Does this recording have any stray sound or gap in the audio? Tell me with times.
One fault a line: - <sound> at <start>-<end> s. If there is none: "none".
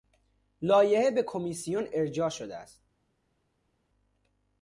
none